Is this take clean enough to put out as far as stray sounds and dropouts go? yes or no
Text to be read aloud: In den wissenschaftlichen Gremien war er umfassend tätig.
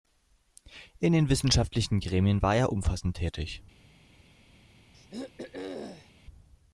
no